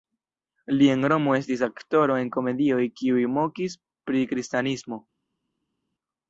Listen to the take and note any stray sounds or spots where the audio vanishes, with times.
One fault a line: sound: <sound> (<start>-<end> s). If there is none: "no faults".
no faults